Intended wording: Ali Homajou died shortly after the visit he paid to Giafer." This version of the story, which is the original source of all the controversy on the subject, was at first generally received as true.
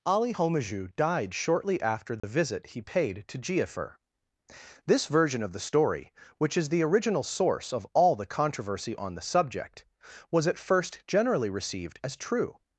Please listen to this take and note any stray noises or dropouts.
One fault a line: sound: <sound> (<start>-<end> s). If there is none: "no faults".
sound: dropout (2.2-2.2 s)